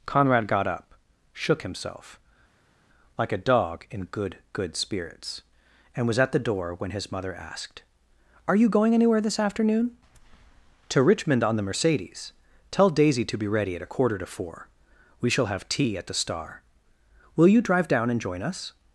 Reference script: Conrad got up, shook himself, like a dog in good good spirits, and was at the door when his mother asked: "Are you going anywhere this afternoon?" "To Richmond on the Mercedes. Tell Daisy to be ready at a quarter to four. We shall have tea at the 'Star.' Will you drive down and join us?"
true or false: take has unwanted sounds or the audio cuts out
false